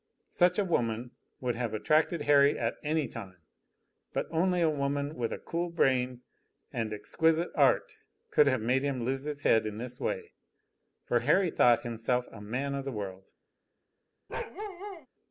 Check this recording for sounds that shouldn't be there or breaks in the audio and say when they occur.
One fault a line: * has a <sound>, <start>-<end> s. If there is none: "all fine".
* has a bark, 14.3-15.1 s